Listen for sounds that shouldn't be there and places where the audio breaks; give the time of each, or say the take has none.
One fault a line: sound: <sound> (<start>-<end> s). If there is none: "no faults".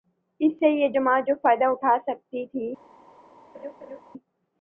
sound: laugh (3.5-4.0 s)